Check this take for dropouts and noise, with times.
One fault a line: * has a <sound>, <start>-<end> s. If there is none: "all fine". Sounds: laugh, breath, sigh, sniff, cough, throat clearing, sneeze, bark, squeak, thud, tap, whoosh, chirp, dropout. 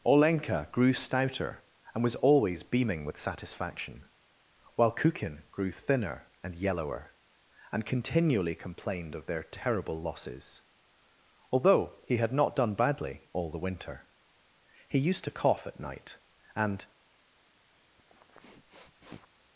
* has a sniff, 18.0-19.3 s